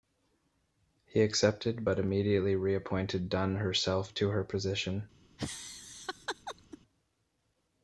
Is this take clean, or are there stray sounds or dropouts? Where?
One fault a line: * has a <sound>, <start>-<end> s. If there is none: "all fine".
* has a laugh, 5.4-6.8 s